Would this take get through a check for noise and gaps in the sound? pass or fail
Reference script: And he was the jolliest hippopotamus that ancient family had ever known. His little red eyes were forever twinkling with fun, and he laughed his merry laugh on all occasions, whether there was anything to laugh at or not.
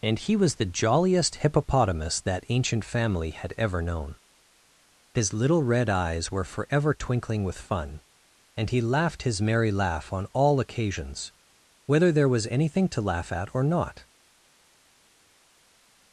pass